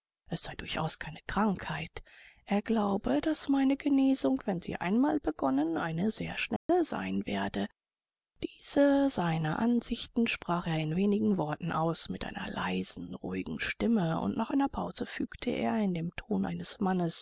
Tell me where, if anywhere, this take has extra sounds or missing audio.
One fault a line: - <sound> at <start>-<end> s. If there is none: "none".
- dropout at 6.6-6.7 s